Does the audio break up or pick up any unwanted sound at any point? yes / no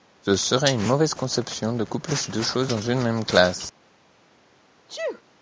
yes